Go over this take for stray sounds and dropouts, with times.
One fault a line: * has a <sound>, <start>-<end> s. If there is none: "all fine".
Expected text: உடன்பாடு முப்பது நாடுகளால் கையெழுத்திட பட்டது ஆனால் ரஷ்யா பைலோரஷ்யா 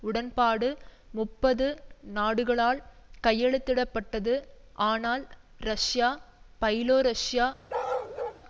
* has a bark, 7.7-8.4 s